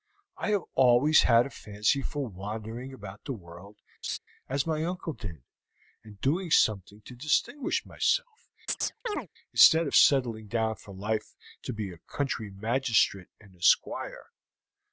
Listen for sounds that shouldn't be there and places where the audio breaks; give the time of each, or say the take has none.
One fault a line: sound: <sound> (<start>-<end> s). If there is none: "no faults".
sound: laugh (4.0-4.2 s)
sound: chirp (8.7-9.3 s)